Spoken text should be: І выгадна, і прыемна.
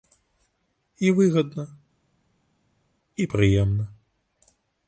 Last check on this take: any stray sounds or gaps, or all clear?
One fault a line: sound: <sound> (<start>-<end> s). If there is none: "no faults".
no faults